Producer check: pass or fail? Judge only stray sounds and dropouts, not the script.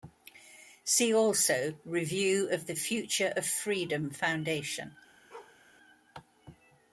fail